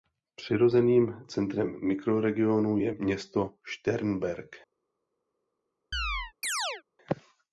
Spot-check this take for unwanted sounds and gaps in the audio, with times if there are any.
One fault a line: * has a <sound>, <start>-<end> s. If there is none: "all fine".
* has a chirp, 5.9-6.8 s